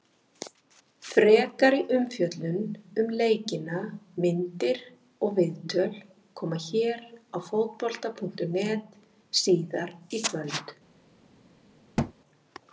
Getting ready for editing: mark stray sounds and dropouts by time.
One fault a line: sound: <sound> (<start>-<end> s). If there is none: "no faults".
sound: thud (12.0-12.1 s)